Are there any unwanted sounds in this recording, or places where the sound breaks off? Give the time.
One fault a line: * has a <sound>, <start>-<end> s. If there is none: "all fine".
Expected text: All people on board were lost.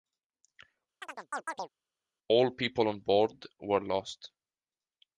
* has a chirp, 1.0-1.7 s